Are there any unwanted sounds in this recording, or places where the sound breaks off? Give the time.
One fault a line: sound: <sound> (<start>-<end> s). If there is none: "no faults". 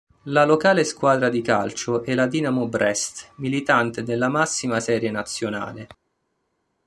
no faults